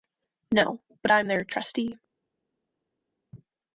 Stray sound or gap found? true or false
false